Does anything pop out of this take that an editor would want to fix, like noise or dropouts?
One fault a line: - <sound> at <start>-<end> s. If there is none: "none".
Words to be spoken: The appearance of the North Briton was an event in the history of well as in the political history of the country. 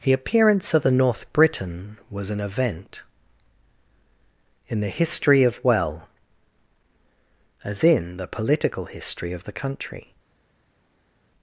none